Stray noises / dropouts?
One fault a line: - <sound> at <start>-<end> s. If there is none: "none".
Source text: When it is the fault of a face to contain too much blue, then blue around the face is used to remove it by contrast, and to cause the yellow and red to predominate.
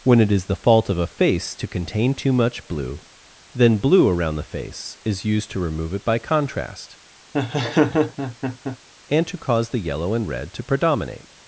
- laugh at 7.3-8.8 s